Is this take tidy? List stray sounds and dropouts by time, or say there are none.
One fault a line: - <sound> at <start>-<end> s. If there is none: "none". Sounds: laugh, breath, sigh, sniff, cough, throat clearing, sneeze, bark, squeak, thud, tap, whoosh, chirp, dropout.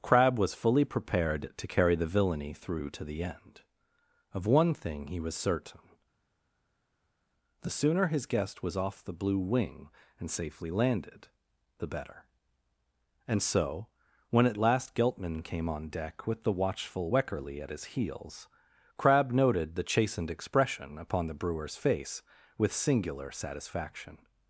none